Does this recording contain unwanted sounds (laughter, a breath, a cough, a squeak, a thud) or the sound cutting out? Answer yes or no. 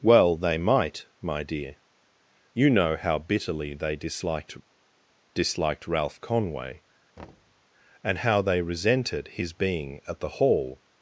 yes